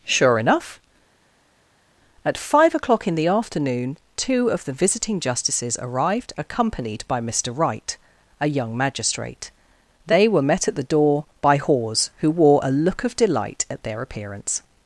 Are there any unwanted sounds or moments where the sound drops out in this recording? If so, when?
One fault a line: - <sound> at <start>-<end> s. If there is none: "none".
none